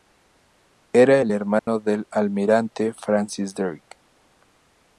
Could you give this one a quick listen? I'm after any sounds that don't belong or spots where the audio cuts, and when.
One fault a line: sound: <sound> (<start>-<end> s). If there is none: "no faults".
sound: dropout (1.6-1.7 s)